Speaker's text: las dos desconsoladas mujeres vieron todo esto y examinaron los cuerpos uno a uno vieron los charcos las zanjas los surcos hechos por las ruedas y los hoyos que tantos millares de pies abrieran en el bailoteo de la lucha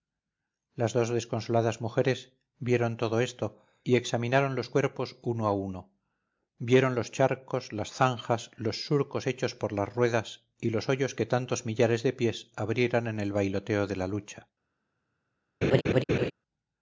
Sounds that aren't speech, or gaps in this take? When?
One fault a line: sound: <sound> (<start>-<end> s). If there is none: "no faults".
sound: laugh (15.6-16.3 s)